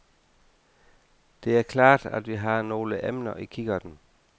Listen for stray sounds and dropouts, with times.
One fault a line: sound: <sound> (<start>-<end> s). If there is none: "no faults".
no faults